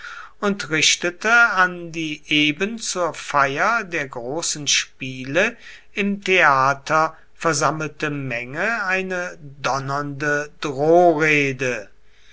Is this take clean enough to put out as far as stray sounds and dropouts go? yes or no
yes